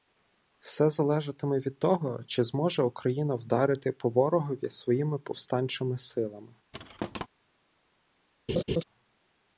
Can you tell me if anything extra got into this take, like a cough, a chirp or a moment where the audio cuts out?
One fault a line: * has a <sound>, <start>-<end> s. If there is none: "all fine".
* has a thud, 6.7-7.3 s
* has a laugh, 8.5-8.8 s